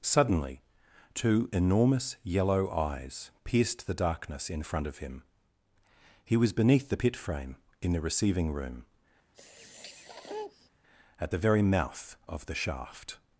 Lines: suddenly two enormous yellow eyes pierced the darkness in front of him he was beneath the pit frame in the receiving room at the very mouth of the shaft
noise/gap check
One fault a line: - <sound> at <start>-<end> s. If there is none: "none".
- sniff at 9.3-10.7 s